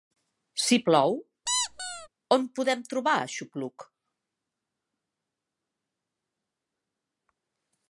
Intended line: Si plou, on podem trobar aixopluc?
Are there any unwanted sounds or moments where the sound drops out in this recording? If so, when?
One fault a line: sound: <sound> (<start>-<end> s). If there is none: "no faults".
sound: squeak (1.5-2.1 s)